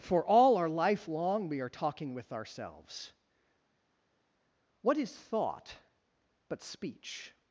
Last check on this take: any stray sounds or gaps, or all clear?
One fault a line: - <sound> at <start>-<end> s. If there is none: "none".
none